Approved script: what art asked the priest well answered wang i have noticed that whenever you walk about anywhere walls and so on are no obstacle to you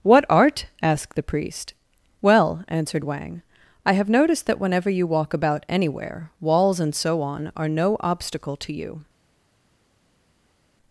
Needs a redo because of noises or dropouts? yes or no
no